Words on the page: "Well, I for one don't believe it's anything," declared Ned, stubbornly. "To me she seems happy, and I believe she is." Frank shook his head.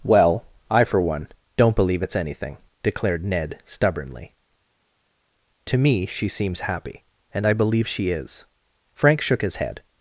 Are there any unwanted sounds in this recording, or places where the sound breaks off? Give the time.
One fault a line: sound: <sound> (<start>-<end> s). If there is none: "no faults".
no faults